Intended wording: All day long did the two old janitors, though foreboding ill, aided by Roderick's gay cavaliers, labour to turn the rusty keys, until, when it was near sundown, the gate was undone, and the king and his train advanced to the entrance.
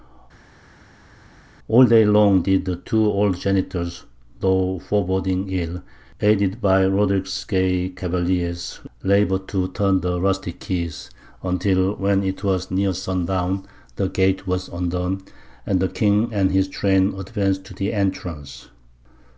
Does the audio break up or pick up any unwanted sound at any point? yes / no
no